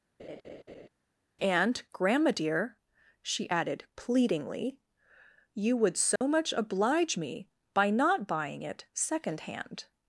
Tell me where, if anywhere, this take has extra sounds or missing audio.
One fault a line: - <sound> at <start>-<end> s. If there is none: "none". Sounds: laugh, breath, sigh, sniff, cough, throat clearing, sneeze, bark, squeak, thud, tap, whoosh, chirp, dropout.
- laugh at 0.2-0.9 s
- dropout at 6.2-6.2 s